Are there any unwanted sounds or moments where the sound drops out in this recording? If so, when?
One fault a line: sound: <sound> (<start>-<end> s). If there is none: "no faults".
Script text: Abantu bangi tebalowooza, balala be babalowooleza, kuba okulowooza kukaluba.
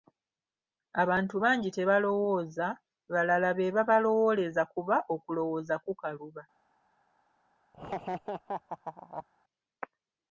sound: laugh (7.7-9.3 s)